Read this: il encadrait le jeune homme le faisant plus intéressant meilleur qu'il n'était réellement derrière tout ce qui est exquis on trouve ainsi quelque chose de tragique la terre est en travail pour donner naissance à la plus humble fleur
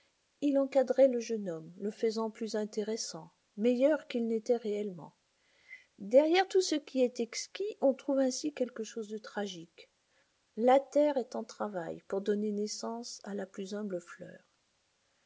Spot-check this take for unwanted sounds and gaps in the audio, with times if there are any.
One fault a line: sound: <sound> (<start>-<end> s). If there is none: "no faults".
no faults